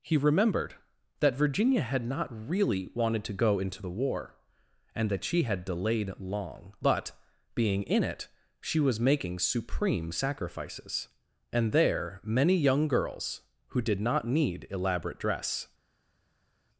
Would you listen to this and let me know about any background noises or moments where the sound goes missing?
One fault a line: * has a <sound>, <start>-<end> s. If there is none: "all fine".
all fine